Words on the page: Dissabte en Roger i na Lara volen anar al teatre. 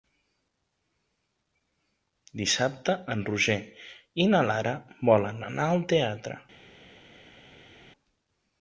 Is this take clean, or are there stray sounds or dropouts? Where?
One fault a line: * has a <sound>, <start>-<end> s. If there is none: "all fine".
all fine